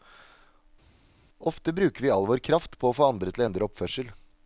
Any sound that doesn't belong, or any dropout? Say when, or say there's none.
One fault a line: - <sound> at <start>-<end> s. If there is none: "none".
none